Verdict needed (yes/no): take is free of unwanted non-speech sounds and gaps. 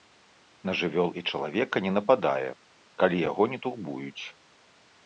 yes